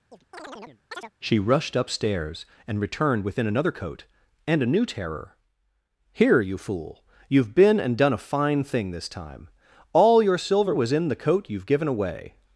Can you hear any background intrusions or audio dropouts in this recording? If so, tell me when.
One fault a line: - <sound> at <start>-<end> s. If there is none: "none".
- chirp at 0.1-1.1 s